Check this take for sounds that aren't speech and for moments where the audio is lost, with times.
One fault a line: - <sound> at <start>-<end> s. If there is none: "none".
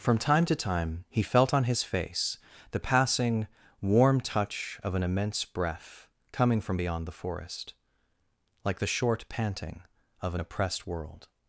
none